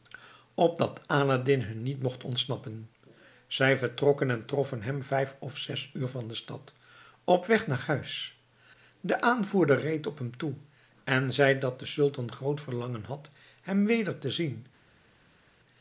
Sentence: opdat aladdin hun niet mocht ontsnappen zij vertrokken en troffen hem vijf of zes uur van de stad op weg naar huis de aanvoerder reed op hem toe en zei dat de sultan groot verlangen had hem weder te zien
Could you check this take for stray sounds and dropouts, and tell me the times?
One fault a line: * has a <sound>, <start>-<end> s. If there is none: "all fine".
all fine